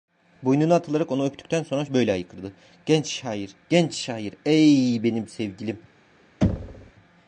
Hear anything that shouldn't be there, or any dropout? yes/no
yes